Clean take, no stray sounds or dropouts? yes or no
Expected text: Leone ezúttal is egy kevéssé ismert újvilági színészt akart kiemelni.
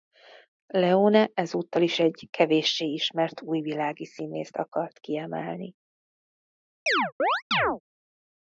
no